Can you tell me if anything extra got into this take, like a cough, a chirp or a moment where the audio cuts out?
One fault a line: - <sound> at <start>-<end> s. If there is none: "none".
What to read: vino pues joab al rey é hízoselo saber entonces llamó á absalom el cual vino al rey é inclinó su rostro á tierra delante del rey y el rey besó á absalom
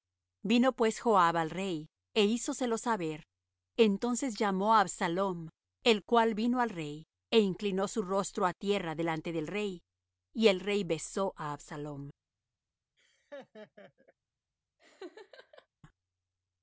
- laugh at 13.0-14.1 s
- laugh at 14.8-15.7 s